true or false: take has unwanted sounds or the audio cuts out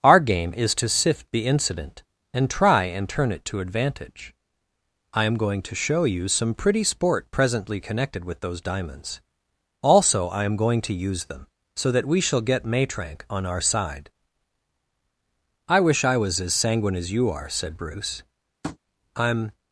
true